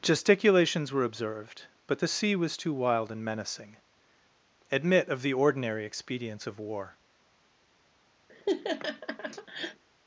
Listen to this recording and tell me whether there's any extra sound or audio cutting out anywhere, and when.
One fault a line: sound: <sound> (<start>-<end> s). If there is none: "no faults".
sound: laugh (8.3-9.8 s)